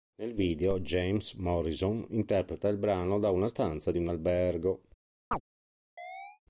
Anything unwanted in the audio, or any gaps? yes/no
yes